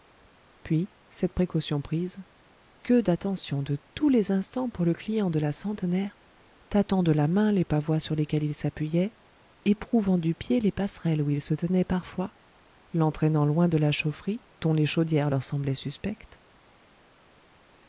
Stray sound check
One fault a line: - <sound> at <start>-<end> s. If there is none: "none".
none